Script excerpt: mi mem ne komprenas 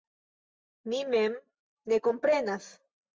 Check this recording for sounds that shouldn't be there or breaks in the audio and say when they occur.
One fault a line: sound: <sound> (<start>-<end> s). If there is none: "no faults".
no faults